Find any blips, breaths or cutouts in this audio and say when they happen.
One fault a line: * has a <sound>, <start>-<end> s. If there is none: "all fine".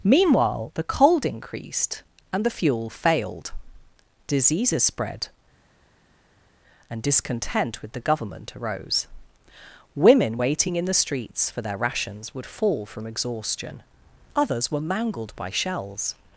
all fine